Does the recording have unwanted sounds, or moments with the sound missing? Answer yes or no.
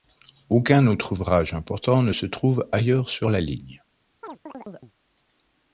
yes